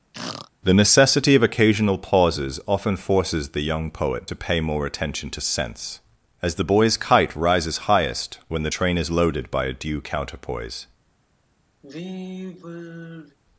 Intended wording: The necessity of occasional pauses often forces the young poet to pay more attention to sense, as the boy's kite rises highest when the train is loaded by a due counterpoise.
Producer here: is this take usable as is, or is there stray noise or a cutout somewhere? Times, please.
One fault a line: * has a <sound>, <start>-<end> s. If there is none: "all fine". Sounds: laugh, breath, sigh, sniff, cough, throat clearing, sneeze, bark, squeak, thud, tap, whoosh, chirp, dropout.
* has a throat clearing, 0.1-0.5 s
* has a sigh, 11.8-13.4 s